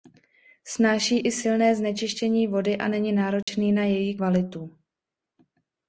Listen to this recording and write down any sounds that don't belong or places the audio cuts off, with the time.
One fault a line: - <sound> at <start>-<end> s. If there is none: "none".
- dropout at 3.4-3.5 s